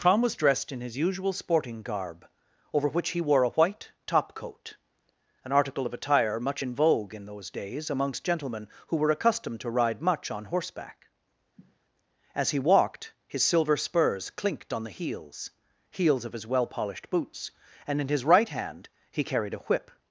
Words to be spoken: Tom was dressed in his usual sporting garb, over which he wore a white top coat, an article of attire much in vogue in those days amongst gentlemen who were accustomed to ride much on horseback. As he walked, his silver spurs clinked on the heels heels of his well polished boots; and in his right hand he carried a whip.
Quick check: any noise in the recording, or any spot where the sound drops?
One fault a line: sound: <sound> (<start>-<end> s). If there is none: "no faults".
sound: sniff (11.6-11.8 s)